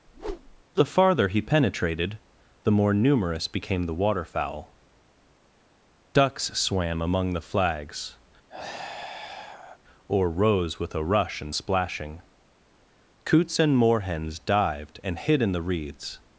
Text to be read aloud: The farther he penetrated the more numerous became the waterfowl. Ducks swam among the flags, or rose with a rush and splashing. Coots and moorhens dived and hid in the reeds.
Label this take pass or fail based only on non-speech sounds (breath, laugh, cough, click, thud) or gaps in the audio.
fail